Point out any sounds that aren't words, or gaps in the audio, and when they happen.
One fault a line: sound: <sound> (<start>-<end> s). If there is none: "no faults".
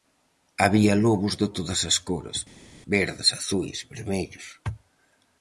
no faults